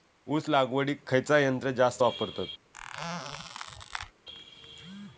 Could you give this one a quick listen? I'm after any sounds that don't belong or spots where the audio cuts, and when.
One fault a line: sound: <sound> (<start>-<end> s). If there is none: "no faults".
sound: squeak (2.7-4.1 s)